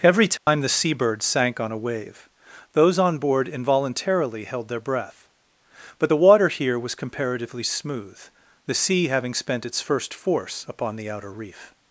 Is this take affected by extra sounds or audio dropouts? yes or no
yes